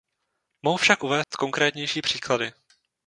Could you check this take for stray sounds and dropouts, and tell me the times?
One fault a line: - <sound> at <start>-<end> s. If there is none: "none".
- dropout at 1.2-1.3 s